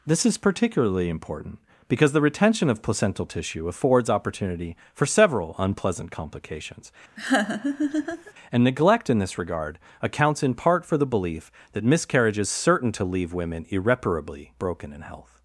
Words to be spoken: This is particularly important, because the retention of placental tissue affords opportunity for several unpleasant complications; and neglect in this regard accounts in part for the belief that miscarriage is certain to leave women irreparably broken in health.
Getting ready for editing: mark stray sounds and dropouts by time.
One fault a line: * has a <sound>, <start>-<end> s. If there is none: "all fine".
* has a laugh, 7.2-8.3 s